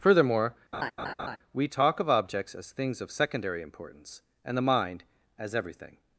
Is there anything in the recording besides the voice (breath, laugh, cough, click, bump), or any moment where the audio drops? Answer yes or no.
yes